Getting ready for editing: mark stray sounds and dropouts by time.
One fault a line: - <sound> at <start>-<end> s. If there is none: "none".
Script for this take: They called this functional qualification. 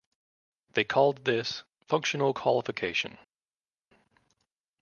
none